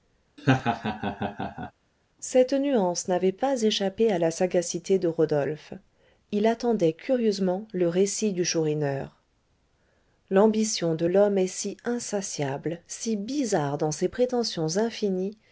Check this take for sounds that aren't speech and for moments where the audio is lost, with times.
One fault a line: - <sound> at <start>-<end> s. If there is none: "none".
- laugh at 0.4-1.7 s